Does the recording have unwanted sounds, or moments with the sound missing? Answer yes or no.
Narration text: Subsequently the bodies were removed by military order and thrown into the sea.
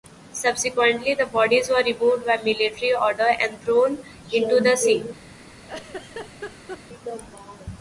yes